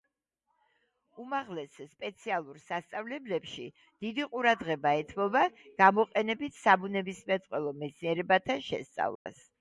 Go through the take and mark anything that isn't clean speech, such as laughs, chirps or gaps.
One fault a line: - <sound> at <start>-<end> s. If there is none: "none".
- dropout at 9.2-9.3 s